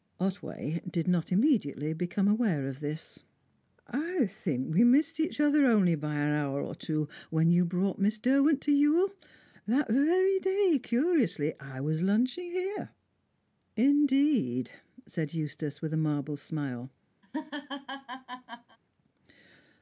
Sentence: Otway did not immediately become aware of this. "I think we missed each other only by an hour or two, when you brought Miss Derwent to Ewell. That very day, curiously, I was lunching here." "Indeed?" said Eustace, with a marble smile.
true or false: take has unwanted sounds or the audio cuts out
true